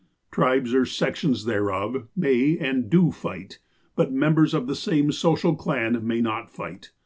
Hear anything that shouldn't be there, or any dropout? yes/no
no